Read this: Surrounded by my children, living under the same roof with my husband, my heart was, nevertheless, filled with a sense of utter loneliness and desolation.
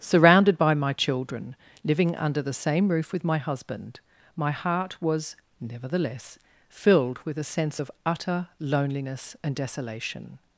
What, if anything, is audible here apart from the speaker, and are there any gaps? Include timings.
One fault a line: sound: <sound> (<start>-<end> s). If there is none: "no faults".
no faults